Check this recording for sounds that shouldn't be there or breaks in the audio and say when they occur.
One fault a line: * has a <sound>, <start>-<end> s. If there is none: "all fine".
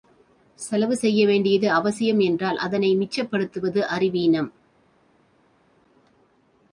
all fine